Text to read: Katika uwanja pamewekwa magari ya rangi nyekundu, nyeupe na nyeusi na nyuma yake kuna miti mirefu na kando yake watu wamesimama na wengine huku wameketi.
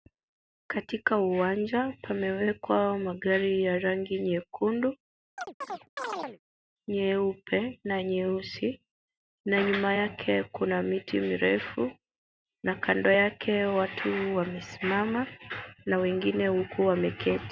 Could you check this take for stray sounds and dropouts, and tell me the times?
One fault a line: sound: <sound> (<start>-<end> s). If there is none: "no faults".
sound: chirp (5.4-6.4 s)